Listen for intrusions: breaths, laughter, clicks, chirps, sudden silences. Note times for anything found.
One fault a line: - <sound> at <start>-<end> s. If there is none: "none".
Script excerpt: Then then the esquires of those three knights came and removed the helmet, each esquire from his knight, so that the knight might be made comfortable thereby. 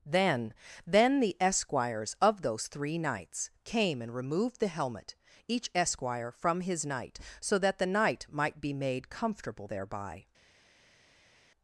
none